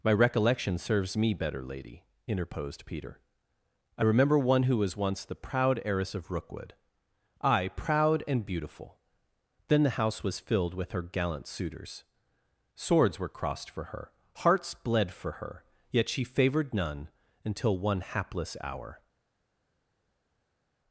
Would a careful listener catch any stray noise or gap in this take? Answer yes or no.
no